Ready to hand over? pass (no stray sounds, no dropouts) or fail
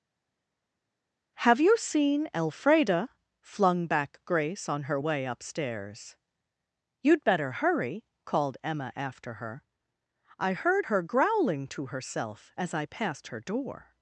pass